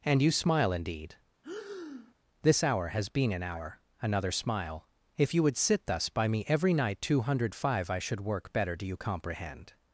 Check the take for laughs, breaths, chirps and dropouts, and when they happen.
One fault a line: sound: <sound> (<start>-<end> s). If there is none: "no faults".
sound: breath (1.4-2.1 s)